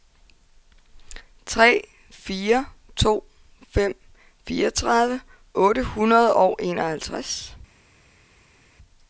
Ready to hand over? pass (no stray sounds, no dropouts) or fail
pass